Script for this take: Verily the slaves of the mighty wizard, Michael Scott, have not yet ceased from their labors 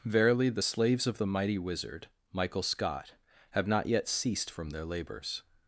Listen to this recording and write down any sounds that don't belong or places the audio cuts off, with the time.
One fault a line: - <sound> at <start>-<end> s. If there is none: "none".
none